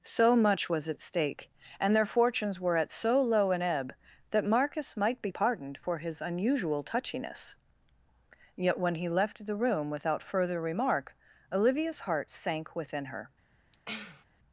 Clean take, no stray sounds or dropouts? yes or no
no